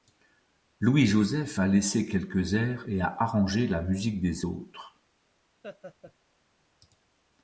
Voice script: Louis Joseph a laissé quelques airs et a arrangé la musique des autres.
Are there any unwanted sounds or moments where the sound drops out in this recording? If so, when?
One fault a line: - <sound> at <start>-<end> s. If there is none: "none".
- laugh at 5.6-6.1 s